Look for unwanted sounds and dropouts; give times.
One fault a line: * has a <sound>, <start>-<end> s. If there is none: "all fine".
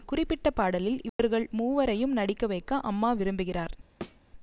* has a dropout, 1.1-1.2 s
* has a thud, 4.0-4.2 s